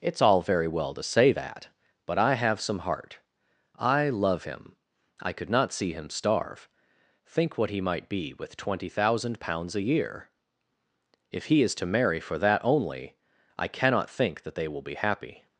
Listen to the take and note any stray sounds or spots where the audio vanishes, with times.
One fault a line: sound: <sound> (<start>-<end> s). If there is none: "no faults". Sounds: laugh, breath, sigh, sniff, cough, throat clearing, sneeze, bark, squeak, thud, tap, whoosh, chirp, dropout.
no faults